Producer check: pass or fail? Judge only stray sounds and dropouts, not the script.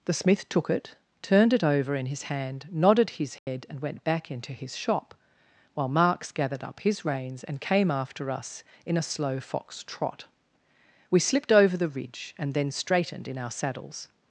fail